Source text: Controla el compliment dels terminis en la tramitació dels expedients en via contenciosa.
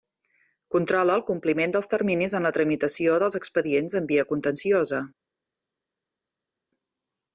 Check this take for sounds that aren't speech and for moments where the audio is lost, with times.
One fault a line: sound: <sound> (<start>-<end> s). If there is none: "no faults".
no faults